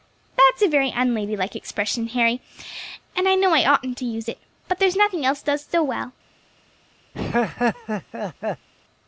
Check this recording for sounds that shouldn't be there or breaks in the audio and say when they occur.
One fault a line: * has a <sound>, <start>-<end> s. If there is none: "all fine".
* has a laugh, 7.1-8.7 s